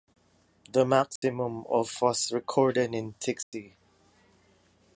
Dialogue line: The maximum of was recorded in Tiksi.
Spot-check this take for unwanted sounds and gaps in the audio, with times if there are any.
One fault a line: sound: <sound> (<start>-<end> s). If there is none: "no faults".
sound: dropout (1.2-1.2 s)
sound: dropout (3.4-3.5 s)